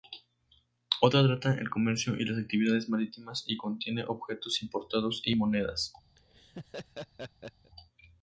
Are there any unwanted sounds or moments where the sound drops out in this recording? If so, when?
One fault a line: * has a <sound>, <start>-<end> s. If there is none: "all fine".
* has a laugh, 6.2-7.7 s